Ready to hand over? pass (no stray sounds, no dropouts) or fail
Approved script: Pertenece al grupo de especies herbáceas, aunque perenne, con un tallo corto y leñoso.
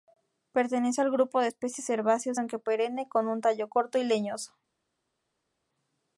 pass